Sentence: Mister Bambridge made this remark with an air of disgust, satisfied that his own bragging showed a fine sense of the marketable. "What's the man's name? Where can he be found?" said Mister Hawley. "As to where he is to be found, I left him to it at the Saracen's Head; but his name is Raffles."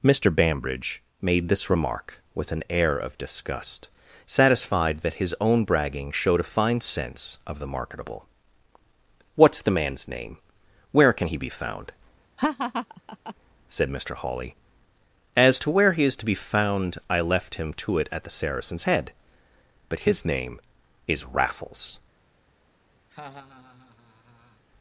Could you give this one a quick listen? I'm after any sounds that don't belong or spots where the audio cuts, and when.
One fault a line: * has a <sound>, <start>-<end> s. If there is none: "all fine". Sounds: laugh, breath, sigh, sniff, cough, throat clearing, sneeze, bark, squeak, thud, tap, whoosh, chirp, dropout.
* has a laugh, 12.4-13.3 s
* has a laugh, 23.1-24.6 s